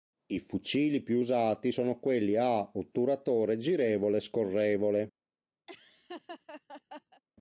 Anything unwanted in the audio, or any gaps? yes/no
yes